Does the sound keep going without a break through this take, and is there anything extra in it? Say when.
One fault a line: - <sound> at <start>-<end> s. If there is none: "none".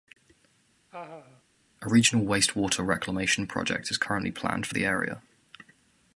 - laugh at 0.9-1.4 s